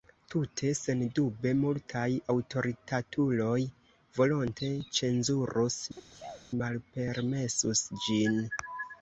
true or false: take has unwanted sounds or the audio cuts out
true